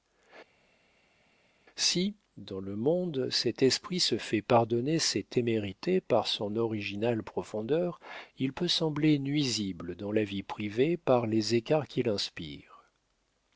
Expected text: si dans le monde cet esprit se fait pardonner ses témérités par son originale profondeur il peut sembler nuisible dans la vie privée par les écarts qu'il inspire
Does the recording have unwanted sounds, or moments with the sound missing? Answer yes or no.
no